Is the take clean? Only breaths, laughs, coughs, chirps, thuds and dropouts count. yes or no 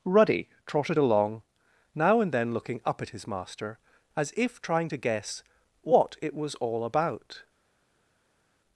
yes